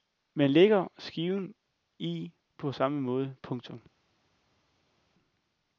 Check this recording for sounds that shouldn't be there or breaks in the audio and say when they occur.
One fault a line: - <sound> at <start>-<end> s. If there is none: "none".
none